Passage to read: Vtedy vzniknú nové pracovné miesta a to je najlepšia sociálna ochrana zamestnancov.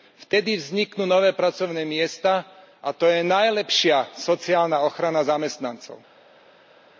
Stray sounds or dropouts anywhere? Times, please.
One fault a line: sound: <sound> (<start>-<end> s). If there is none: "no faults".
no faults